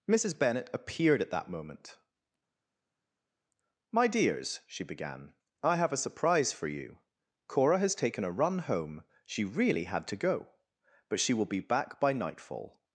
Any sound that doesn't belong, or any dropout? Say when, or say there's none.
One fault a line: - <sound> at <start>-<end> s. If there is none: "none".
none